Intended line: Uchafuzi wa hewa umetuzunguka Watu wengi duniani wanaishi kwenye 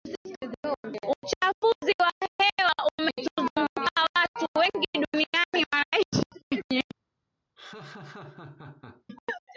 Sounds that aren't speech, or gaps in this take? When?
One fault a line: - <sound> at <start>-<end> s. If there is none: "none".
- laugh at 7.6-9.0 s